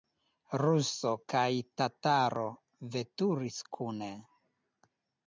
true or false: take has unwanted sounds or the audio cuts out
false